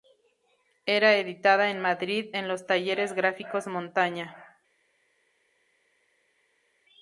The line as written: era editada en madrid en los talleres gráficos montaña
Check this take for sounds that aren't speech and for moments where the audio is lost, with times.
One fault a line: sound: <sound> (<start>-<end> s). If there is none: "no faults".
no faults